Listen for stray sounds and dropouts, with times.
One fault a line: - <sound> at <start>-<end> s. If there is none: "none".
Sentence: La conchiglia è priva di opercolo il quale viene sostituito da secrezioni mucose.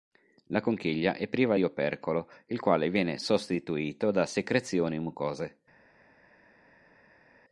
none